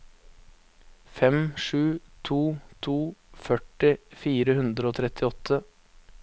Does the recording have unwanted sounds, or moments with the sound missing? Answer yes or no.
no